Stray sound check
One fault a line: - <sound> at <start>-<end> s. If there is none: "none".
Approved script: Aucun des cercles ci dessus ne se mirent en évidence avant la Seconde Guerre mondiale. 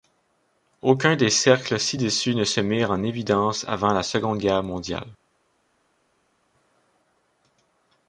none